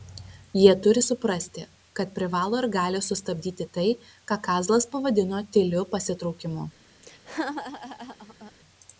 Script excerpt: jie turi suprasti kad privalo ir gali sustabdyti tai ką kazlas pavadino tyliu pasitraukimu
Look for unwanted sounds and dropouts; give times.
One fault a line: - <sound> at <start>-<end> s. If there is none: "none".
- laugh at 7.0-8.5 s